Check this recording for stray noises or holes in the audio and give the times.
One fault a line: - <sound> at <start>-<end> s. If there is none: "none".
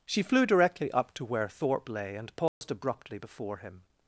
- dropout at 2.5-2.6 s